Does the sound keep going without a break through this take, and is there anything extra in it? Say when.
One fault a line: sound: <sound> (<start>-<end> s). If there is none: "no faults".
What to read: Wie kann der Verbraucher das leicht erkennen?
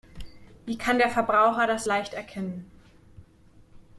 no faults